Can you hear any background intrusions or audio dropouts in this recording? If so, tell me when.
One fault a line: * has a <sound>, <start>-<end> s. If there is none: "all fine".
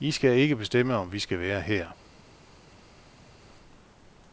all fine